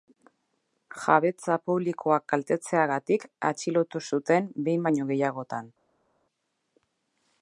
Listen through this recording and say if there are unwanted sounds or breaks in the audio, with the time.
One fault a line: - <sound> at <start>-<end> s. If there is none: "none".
none